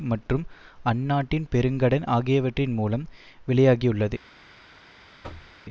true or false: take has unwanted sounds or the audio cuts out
true